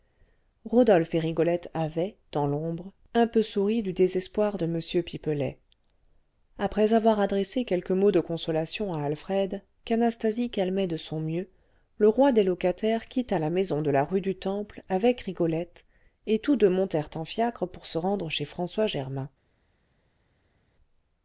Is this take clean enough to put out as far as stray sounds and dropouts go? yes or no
yes